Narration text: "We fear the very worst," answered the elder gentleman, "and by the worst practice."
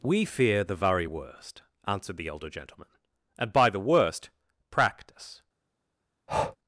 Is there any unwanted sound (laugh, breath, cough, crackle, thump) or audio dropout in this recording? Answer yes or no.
yes